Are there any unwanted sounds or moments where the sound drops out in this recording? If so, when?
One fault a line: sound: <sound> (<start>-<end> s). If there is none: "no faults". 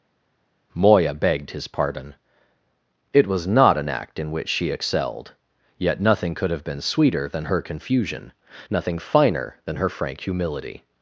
no faults